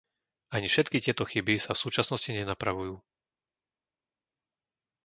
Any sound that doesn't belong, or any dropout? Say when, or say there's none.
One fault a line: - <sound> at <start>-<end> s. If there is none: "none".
none